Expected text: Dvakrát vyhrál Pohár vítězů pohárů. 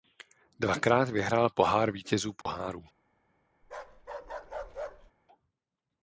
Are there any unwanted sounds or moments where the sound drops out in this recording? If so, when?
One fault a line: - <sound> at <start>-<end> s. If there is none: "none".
- dropout at 2.4-2.5 s
- bark at 3.6-5.1 s